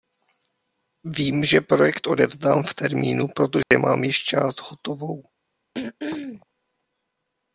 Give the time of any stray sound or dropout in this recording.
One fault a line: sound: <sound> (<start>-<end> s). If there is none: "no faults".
sound: dropout (3.6-3.7 s)
sound: throat clearing (5.7-6.5 s)